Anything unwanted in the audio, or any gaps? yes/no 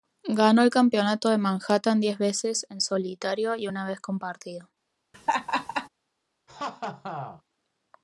yes